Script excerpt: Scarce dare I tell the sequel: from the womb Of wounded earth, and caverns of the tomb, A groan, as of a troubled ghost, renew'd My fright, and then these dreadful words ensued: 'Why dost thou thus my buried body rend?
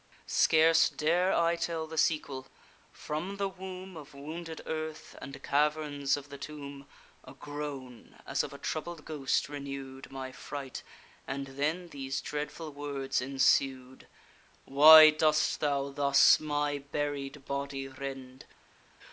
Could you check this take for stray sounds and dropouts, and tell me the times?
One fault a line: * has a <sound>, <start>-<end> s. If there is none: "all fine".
all fine